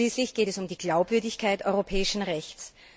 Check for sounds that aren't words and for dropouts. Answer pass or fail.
pass